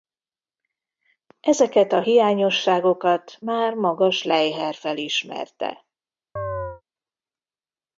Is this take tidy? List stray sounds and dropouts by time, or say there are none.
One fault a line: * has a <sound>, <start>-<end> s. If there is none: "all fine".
* has a chirp, 6.4-6.8 s